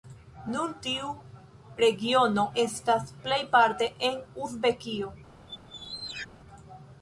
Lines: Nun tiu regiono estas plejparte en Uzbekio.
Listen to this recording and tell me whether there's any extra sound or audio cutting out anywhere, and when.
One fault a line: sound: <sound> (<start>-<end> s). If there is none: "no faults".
sound: squeak (5.5-6.3 s)